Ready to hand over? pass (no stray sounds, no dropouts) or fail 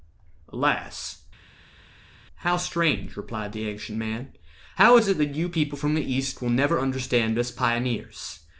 pass